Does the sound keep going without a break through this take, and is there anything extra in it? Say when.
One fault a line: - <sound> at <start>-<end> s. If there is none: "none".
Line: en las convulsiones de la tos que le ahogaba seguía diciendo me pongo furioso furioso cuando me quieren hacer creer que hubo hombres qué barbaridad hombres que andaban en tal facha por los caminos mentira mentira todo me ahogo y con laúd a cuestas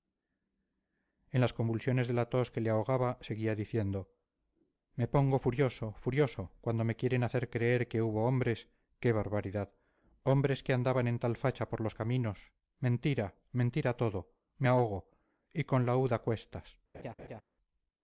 - laugh at 16.9-17.4 s